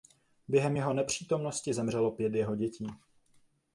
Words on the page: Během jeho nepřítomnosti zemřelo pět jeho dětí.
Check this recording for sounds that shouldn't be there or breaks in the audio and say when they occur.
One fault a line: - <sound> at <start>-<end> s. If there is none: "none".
none